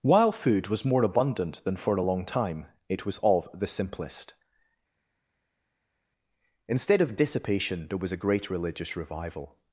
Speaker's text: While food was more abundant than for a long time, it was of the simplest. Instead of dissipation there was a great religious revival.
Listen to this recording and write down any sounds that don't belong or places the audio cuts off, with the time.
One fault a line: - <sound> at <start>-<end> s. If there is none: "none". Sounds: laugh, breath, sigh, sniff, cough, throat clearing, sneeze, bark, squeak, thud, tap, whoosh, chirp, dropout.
none